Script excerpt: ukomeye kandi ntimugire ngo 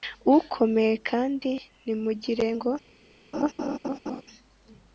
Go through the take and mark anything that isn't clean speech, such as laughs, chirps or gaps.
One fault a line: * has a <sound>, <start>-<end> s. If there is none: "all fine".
* has a laugh, 3.3-4.2 s